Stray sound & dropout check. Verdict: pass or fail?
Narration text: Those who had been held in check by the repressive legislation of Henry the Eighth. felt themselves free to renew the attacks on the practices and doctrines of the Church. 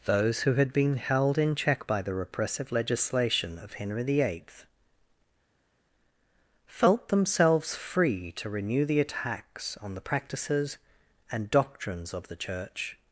pass